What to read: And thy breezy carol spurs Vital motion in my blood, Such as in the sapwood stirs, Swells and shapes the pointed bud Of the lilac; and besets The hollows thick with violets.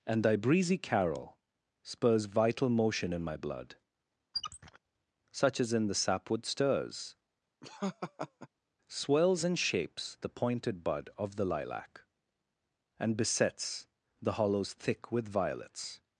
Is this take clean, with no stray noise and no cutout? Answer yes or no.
no